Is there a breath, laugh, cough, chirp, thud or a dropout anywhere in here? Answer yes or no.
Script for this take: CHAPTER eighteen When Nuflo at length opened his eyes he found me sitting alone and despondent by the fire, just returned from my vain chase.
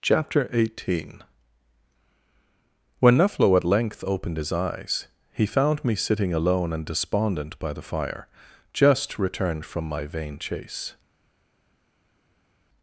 no